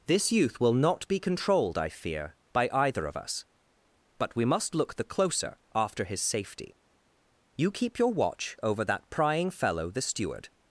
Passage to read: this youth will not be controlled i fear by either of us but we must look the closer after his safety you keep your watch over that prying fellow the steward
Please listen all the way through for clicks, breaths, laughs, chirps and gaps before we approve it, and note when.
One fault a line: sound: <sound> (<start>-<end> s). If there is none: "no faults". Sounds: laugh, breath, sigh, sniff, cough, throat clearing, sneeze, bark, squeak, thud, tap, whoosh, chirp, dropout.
no faults